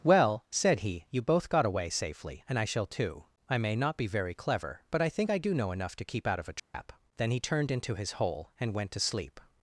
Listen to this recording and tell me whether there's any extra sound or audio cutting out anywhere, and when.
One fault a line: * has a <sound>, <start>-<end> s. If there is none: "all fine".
* has a dropout, 6.6-6.7 s